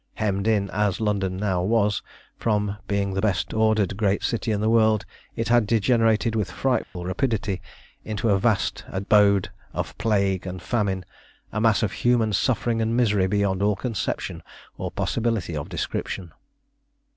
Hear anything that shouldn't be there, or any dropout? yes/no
yes